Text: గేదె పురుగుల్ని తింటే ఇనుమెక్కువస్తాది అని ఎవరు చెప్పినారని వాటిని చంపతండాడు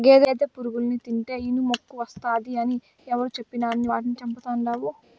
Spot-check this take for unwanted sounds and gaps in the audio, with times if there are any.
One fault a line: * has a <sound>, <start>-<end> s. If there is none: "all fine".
all fine